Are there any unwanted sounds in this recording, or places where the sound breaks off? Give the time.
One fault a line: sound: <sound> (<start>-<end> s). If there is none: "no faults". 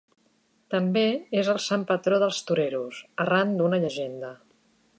no faults